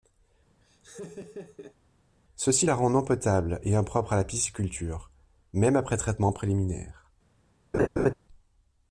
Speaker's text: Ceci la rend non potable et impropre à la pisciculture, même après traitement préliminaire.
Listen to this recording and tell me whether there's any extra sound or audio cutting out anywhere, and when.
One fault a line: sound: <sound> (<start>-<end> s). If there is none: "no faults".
sound: laugh (0.6-1.8 s)
sound: laugh (7.7-8.1 s)